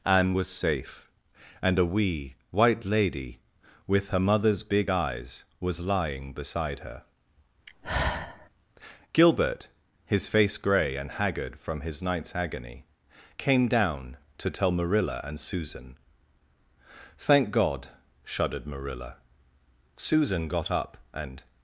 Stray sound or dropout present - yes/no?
yes